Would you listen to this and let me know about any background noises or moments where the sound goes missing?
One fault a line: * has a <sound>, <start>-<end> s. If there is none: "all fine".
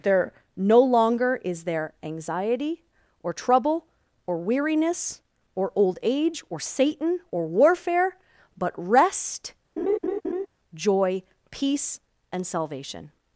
* has a laugh, 9.8-10.5 s